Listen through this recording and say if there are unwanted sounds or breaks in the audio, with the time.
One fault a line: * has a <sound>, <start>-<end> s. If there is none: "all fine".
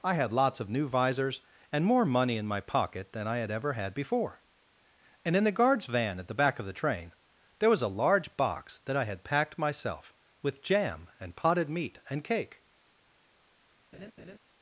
* has a laugh, 13.9-14.4 s